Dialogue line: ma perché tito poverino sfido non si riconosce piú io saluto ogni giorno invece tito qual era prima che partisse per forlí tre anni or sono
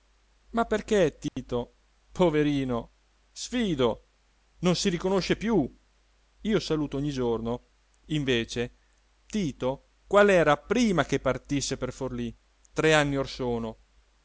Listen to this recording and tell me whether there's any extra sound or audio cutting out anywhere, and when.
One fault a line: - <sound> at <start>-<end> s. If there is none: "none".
- dropout at 1.3-1.4 s